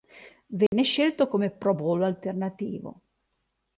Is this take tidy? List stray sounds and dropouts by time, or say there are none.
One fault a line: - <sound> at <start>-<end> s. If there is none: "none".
- dropout at 0.7-0.7 s